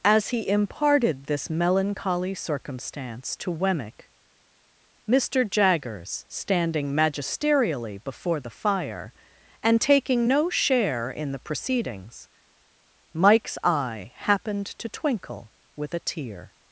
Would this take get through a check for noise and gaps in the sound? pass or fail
pass